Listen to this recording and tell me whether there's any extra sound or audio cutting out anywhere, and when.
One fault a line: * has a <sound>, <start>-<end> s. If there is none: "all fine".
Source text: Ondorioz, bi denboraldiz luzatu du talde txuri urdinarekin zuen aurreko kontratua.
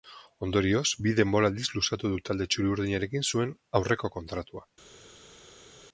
all fine